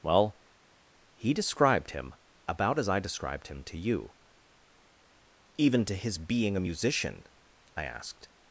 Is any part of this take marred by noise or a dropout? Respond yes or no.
no